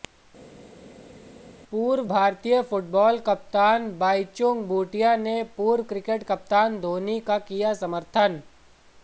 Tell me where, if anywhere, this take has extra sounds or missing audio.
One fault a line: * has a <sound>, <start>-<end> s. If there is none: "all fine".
all fine